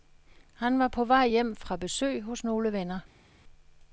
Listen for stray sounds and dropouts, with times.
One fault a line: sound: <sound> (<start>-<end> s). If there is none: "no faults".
no faults